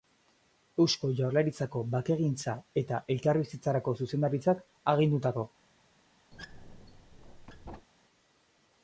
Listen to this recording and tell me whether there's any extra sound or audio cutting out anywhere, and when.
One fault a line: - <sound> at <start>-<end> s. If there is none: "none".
- squeak at 6.3-7.9 s